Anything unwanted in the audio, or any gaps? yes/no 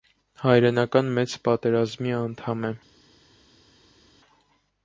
no